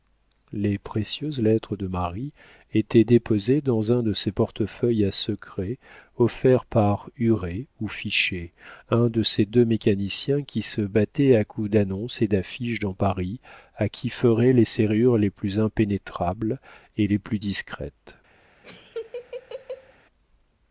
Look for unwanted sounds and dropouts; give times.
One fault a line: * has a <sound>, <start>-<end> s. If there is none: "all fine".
* has a laugh, 18.6-19.9 s